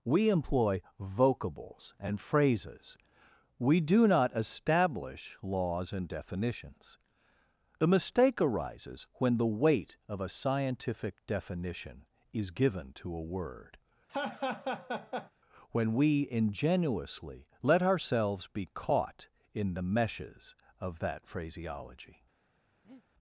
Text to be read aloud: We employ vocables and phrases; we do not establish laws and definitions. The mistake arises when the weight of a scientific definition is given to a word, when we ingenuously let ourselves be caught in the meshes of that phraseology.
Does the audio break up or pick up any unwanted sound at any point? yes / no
yes